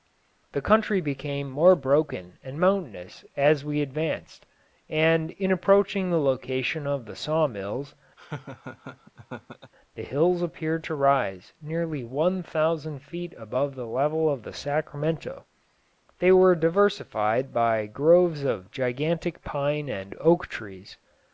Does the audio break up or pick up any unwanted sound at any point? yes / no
yes